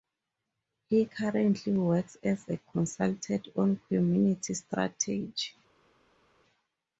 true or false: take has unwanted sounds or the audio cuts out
false